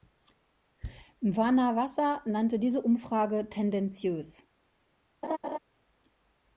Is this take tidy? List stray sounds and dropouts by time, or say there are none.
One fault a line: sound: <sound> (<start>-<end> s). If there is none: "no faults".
sound: laugh (5.2-5.6 s)